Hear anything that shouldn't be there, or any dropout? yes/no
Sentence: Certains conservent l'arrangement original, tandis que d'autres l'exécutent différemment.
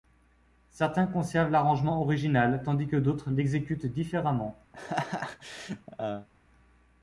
yes